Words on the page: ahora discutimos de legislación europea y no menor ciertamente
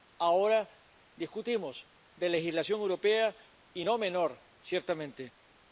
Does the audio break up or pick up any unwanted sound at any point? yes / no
no